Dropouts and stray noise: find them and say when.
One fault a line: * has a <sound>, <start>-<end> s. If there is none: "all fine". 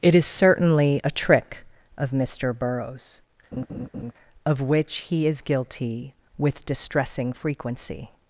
* has a laugh, 3.5-4.1 s